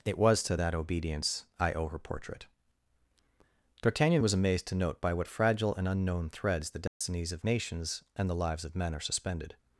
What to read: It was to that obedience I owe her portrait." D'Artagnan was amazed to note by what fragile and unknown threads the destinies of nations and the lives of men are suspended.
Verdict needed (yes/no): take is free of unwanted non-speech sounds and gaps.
no